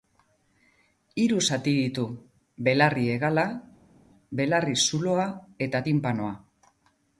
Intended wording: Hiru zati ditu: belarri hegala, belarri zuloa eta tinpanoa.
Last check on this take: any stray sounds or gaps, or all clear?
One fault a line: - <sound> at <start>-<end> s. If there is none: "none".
none